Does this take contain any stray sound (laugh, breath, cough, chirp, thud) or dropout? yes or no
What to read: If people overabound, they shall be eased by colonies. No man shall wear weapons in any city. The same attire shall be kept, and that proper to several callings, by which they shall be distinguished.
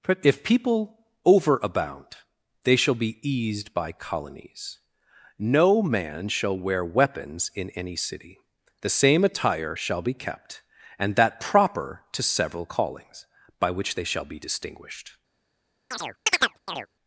yes